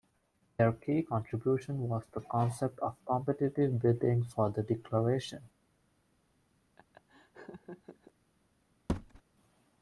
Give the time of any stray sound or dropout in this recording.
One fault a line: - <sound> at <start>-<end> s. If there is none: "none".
- laugh at 6.8-8.1 s
- thud at 8.9-9.2 s